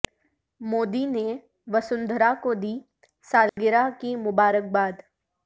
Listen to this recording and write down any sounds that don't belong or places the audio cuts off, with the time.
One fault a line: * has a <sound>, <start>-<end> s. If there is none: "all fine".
* has a dropout, 3.5-3.6 s